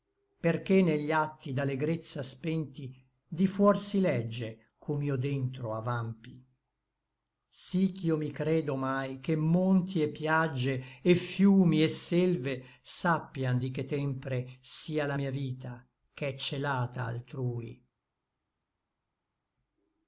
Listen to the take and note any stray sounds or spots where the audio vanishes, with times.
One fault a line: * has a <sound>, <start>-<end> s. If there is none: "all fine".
all fine